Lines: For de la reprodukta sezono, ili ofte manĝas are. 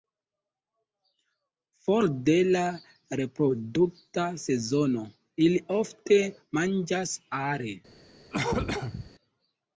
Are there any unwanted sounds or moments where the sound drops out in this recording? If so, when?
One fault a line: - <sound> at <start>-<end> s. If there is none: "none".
- cough at 8.3-9.1 s